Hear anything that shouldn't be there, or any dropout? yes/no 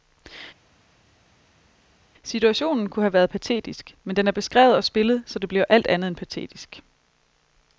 no